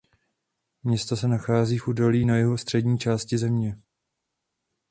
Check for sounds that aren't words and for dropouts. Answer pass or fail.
pass